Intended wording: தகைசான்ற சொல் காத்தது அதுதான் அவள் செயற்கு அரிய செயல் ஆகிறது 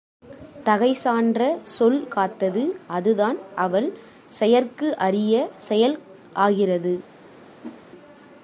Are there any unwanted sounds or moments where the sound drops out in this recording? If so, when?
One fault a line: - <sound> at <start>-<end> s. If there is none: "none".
- whoosh at 7.6-7.8 s